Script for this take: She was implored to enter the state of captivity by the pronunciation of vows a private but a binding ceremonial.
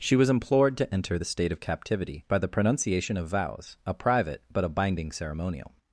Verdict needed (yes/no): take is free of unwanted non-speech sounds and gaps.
yes